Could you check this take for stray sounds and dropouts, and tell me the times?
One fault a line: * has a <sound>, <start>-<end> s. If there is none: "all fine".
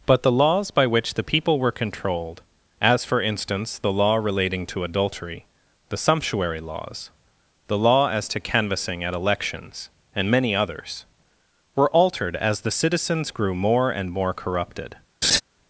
* has a laugh, 15.2-15.4 s